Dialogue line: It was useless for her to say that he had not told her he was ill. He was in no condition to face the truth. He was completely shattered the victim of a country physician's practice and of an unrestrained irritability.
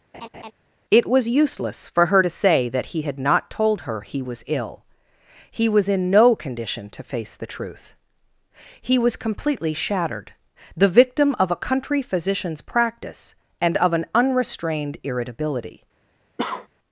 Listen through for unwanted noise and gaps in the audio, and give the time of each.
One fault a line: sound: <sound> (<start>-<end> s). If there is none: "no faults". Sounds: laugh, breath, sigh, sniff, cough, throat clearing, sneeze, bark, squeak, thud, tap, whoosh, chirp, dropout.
sound: laugh (0.1-0.5 s)
sound: cough (16.4-16.7 s)